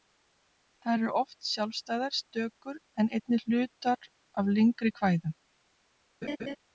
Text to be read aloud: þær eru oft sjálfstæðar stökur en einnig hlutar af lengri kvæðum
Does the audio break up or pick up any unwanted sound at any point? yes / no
yes